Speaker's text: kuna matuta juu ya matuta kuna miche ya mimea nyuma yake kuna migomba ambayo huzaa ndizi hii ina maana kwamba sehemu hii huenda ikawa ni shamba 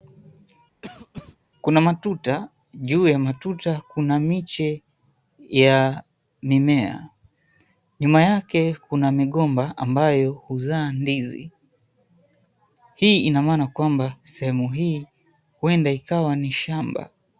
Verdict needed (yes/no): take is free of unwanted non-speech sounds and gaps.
no